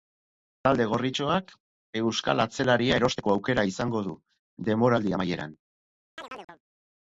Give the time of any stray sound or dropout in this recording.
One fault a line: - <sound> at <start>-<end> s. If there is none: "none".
- chirp at 6.2-6.6 s